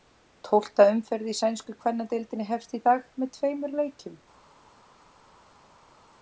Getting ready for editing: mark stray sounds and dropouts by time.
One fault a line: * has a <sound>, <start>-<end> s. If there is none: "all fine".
all fine